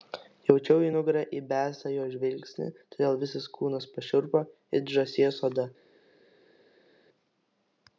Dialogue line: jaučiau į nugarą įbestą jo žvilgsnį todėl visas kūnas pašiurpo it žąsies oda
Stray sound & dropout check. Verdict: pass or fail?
pass